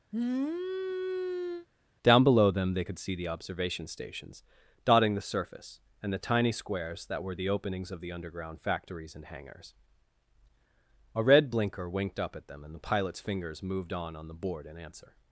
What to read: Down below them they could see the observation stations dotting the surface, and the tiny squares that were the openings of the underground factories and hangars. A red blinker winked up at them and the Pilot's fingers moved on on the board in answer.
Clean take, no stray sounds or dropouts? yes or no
no